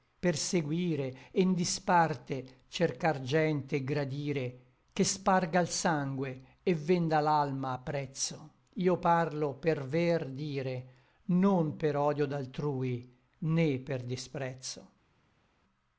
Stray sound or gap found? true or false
false